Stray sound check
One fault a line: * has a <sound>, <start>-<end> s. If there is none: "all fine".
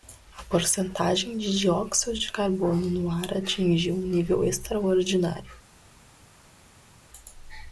all fine